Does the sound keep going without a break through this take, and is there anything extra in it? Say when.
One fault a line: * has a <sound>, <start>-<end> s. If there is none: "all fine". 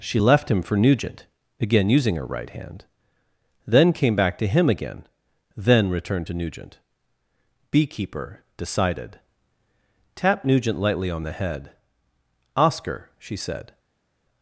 all fine